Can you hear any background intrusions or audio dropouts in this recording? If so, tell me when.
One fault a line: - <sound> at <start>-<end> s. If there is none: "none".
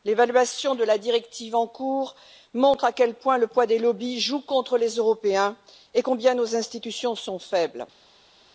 none